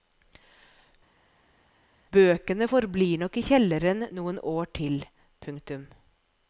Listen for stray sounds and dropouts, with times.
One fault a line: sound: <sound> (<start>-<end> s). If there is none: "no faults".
no faults